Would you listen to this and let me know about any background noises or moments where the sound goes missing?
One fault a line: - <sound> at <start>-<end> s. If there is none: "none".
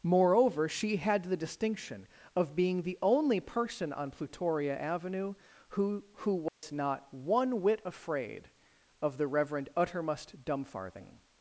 - dropout at 6.5-6.6 s